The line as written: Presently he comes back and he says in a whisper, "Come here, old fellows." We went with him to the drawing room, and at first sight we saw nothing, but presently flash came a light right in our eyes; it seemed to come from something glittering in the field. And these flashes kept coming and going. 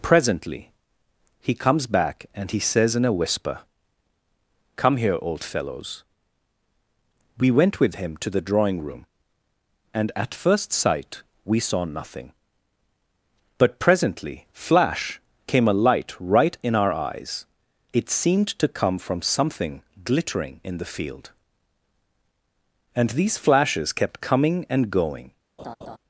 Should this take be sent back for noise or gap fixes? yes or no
yes